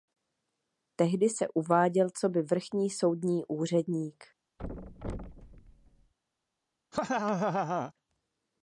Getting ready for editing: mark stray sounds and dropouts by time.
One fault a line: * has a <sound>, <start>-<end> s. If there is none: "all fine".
* has a thud, 4.6-6.1 s
* has a laugh, 6.9-7.9 s